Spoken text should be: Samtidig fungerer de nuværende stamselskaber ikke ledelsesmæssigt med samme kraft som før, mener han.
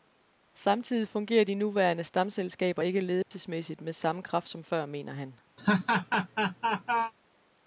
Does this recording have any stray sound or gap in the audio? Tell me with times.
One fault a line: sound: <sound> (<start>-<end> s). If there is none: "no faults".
sound: dropout (3.2-3.3 s)
sound: laugh (5.6-7.1 s)